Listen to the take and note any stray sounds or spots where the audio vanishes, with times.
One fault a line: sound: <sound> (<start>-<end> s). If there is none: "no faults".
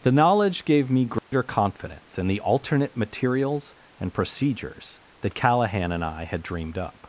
sound: dropout (1.2-1.3 s)